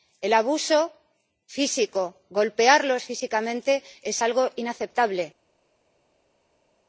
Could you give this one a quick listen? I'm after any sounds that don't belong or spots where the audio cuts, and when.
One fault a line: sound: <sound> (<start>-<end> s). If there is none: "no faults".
no faults